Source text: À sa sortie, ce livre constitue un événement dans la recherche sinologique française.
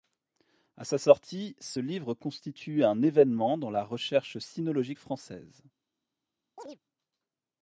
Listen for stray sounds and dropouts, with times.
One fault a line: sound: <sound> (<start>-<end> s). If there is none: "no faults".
sound: chirp (6.6-6.8 s)